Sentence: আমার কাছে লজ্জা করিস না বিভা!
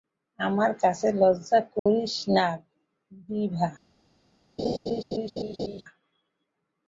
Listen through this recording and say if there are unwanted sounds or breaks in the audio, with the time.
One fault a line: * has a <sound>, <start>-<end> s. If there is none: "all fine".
* has a dropout, 1.8-1.9 s
* has a laugh, 4.6-5.8 s